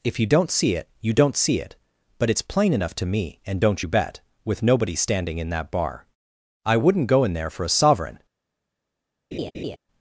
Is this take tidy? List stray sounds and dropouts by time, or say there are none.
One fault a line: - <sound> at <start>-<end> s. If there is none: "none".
- laugh at 9.3-9.8 s